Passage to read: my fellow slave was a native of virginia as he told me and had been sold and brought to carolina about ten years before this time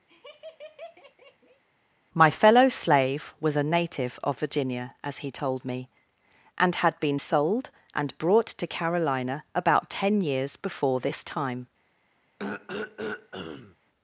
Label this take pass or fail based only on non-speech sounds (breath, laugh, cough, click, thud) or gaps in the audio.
fail